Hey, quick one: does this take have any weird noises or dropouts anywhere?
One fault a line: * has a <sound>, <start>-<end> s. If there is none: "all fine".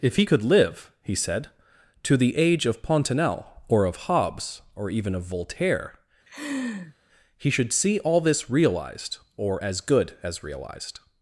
* has a laugh, 6.3-6.9 s